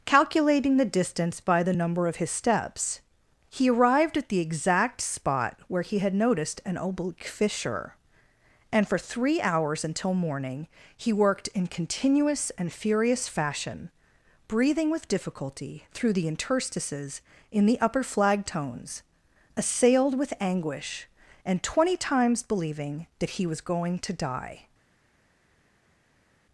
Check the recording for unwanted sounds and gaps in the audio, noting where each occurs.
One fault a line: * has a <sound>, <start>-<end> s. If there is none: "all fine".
all fine